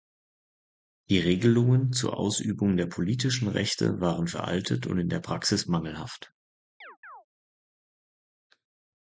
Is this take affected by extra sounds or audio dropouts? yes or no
yes